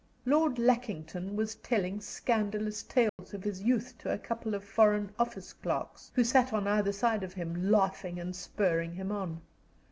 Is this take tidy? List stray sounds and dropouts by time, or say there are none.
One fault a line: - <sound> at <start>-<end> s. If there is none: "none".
- dropout at 3.1-3.2 s